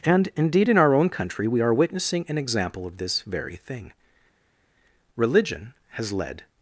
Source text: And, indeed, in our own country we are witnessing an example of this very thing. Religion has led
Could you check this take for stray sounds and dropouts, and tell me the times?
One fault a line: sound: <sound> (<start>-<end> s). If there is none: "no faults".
no faults